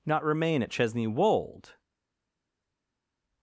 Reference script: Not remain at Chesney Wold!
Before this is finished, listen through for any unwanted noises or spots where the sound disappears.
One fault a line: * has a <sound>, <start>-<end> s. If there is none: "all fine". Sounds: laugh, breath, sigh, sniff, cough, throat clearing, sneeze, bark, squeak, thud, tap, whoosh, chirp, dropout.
all fine